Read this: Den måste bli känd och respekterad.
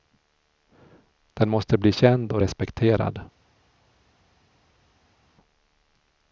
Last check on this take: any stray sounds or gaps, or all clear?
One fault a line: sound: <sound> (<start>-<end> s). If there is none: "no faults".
no faults